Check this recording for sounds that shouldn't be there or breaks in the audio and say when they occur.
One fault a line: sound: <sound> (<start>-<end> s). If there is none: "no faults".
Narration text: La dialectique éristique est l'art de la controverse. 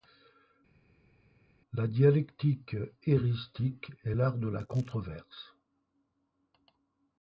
no faults